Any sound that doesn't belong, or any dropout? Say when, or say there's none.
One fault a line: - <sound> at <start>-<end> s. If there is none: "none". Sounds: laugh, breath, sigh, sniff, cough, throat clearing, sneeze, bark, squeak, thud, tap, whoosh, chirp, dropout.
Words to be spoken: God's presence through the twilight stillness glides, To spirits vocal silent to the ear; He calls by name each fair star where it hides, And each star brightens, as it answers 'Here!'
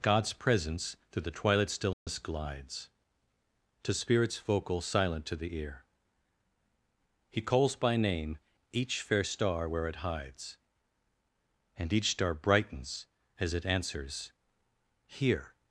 - dropout at 1.9-2.1 s